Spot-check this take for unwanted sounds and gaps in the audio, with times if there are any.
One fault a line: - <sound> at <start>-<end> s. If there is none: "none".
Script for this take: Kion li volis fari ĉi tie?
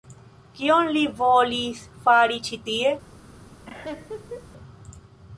- laugh at 3.7-4.5 s